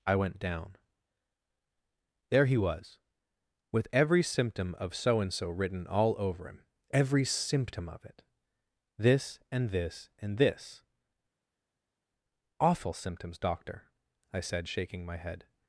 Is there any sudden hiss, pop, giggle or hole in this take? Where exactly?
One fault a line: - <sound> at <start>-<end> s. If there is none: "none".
none